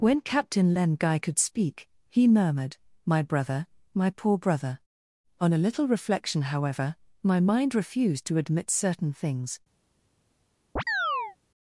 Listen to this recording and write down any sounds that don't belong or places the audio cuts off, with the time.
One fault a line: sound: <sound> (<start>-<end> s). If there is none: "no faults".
sound: chirp (10.8-11.4 s)